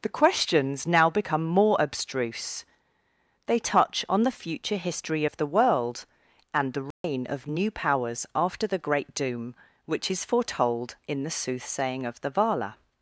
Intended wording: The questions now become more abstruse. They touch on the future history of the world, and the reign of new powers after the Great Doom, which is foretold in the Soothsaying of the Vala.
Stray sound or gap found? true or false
true